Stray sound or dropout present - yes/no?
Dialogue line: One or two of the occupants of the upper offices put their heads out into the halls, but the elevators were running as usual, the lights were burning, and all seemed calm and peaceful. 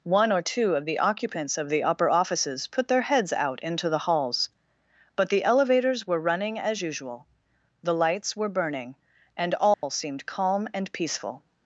yes